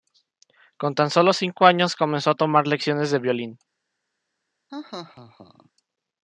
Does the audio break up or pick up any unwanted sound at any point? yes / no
yes